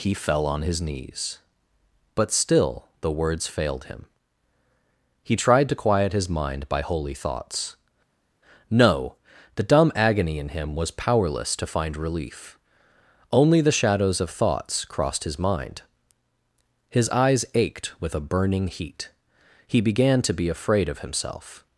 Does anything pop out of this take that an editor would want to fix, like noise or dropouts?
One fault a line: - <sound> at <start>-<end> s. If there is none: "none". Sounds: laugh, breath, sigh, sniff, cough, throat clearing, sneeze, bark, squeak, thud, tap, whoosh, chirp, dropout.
none